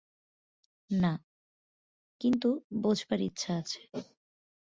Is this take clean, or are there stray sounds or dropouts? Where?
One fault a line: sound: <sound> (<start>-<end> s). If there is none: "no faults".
no faults